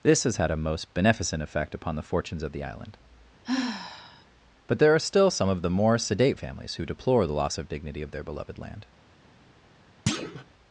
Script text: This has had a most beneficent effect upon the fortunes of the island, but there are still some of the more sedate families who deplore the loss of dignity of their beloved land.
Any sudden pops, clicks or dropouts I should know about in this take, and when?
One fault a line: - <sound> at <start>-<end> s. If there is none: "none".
- sigh at 3.4-4.3 s
- thud at 10.1-10.4 s